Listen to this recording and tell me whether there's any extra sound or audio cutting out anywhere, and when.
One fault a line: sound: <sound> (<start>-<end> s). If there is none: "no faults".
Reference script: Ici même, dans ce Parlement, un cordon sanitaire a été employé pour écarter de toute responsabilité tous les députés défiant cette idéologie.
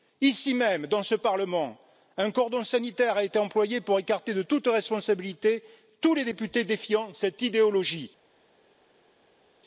no faults